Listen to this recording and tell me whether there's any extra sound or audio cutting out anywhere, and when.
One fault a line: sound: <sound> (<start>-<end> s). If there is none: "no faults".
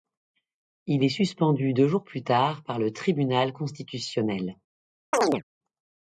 sound: chirp (5.1-5.4 s)